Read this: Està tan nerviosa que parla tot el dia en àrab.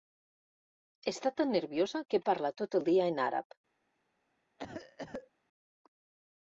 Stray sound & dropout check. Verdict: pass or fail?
fail